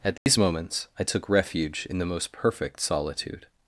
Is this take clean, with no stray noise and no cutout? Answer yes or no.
no